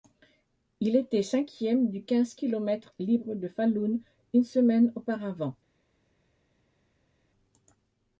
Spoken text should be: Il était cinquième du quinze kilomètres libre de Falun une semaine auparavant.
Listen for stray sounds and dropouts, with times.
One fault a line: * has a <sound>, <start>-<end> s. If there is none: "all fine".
all fine